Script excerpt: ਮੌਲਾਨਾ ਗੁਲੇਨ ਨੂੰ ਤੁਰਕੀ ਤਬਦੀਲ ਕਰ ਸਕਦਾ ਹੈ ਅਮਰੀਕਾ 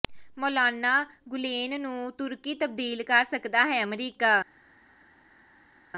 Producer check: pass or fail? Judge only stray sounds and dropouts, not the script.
pass